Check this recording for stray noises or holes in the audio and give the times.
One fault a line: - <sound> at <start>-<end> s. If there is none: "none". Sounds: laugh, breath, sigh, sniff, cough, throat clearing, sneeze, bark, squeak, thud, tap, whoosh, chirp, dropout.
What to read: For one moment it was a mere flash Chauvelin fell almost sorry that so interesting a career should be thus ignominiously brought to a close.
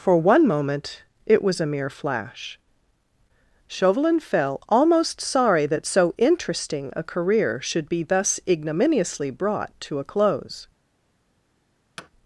- thud at 12.0-12.1 s